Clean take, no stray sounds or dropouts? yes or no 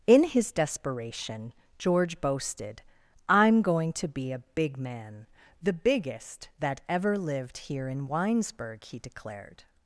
yes